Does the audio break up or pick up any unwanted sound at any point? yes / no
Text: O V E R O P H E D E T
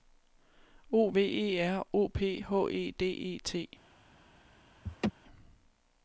yes